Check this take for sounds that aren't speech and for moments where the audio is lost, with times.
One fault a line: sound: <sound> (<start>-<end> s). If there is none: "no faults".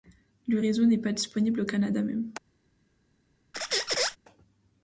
sound: squeak (3.5-4.2 s)